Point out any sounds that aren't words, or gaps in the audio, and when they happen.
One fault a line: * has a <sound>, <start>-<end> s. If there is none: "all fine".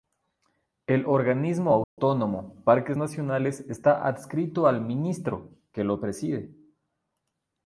* has a dropout, 1.8-2.0 s